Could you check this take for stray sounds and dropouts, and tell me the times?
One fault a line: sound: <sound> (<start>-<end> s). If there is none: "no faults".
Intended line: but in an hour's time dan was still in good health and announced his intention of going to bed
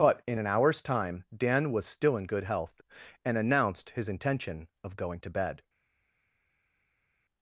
no faults